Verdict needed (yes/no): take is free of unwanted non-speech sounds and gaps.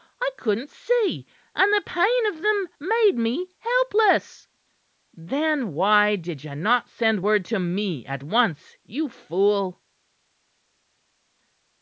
yes